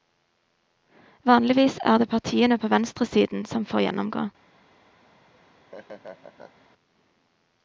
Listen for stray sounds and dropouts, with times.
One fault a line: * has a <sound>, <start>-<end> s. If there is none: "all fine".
* has a laugh, 5.3-6.7 s